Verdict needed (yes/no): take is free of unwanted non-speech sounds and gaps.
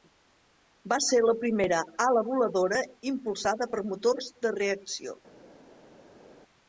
yes